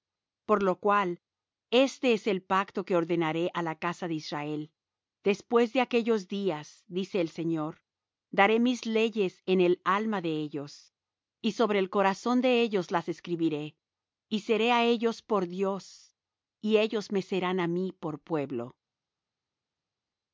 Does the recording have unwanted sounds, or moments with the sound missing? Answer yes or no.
no